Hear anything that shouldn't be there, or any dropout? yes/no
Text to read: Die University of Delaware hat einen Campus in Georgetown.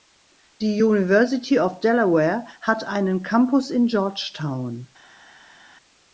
no